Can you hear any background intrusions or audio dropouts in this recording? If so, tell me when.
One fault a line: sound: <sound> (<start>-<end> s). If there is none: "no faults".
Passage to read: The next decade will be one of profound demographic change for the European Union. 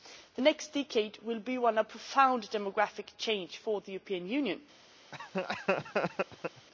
sound: laugh (5.1-6.7 s)